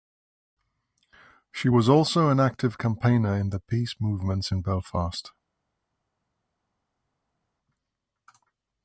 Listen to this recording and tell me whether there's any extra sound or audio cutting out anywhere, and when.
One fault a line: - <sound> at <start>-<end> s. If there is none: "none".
none